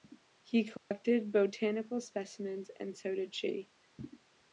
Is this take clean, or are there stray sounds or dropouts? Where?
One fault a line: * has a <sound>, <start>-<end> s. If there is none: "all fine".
* has a dropout, 0.8-0.9 s